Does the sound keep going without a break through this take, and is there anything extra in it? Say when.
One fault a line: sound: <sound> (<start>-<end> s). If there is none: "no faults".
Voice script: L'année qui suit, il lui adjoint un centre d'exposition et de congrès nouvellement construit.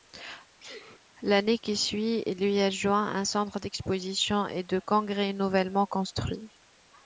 sound: sneeze (0.6-1.0 s)